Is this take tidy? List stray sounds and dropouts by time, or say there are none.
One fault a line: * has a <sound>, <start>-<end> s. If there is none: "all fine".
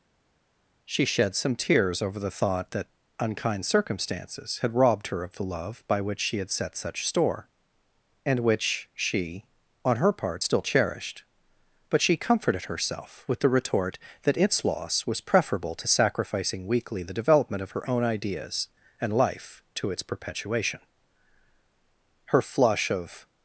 all fine